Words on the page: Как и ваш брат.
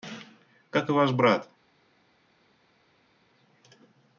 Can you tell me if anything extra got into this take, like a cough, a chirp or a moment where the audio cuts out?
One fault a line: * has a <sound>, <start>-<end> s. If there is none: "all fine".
all fine